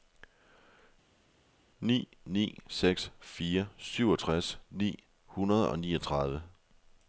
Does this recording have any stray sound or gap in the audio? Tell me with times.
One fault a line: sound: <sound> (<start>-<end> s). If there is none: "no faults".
no faults